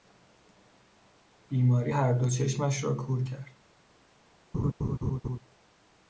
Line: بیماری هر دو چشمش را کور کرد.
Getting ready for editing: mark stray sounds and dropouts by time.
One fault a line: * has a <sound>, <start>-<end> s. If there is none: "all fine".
* has a laugh, 4.5-5.4 s